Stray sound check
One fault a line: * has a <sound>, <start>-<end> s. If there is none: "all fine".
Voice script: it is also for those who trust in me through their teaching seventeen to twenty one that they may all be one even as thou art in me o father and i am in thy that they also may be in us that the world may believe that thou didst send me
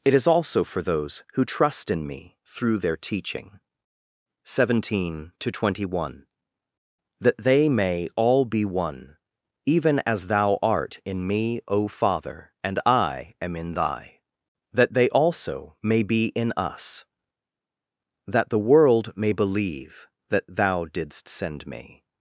all fine